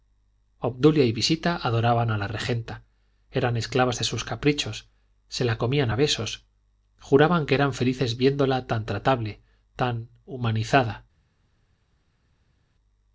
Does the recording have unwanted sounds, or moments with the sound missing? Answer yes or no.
no